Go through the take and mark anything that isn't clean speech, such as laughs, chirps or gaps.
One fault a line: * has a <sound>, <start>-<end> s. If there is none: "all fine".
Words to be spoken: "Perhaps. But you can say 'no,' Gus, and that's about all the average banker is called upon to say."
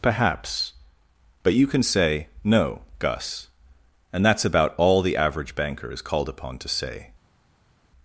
all fine